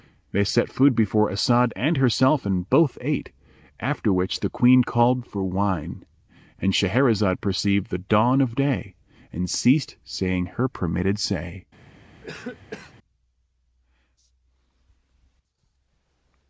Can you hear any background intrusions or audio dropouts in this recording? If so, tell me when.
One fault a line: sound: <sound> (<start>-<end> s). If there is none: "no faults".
sound: cough (12.2-12.9 s)